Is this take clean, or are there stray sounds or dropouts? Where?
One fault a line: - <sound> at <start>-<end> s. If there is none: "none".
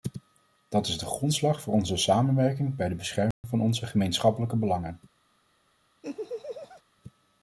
- dropout at 3.3-3.4 s
- laugh at 6.0-6.8 s